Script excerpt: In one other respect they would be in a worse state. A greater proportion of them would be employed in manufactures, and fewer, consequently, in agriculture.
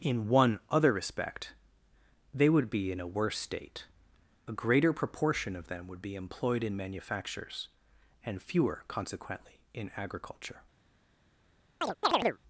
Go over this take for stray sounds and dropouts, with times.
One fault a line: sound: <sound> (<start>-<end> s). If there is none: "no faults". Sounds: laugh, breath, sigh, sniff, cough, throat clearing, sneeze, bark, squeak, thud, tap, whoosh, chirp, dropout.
sound: chirp (11.8-12.4 s)